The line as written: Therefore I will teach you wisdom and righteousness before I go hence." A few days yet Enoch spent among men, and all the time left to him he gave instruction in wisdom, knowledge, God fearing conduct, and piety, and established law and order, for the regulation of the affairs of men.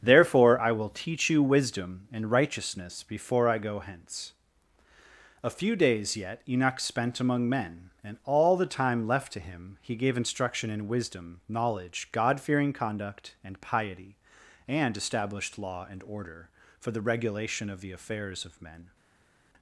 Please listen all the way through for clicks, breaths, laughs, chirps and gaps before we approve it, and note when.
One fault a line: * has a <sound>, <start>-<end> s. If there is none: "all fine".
all fine